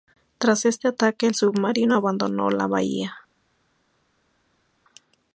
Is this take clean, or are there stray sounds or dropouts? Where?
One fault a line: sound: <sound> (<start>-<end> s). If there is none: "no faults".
no faults